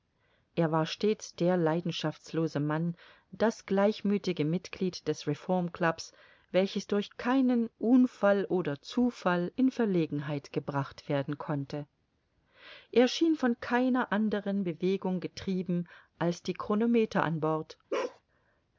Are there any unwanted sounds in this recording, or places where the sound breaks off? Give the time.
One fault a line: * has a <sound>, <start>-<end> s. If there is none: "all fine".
* has a bark, 17.9-18.2 s